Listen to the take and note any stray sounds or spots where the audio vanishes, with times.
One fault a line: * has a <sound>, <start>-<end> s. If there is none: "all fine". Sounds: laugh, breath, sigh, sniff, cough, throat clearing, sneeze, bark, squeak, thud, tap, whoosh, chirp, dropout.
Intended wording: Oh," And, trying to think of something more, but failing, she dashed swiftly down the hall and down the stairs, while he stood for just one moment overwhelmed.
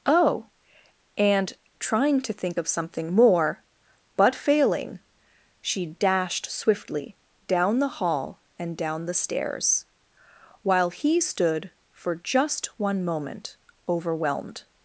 all fine